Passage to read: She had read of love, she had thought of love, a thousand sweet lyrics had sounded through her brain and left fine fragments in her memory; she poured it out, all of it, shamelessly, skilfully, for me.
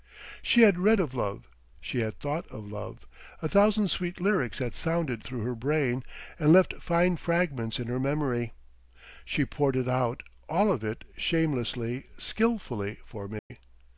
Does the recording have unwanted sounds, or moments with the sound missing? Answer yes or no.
yes